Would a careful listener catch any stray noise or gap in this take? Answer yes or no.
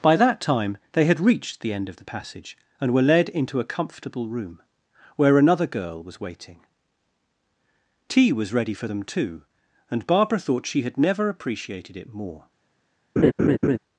yes